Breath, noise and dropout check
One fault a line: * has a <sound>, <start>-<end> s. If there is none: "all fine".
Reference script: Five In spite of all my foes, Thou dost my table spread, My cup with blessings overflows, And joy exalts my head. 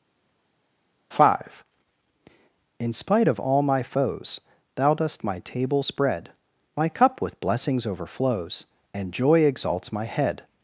all fine